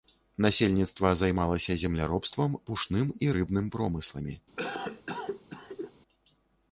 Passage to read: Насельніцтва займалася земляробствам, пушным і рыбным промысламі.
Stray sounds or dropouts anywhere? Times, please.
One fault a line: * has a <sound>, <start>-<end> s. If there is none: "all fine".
* has a cough, 4.6-5.9 s